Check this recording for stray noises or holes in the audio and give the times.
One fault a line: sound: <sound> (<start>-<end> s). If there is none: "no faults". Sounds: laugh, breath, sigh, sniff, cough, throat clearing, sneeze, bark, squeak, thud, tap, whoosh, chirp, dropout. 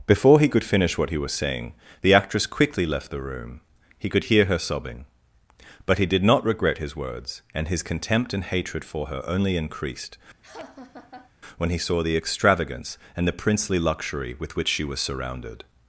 sound: laugh (10.4-11.3 s)